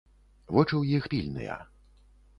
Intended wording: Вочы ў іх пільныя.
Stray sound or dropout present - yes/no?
no